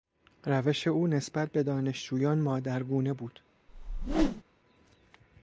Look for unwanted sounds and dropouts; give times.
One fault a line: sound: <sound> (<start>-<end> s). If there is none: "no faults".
sound: whoosh (3.7-4.4 s)